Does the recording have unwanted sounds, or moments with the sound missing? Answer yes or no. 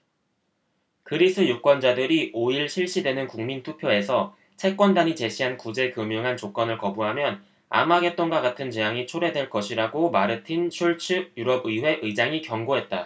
no